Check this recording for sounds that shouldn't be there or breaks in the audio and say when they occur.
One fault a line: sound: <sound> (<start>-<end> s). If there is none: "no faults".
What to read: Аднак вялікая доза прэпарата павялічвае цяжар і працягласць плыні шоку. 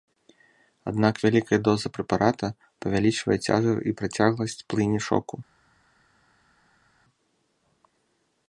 no faults